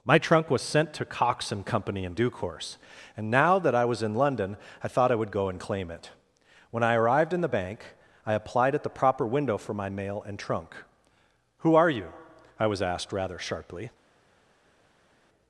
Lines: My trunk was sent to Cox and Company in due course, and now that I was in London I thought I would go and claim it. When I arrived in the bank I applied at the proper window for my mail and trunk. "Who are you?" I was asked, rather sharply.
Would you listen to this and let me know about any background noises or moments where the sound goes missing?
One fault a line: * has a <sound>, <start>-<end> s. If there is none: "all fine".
all fine